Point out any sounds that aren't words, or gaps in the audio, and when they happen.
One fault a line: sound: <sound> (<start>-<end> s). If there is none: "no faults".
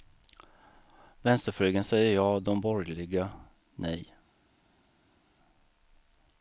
no faults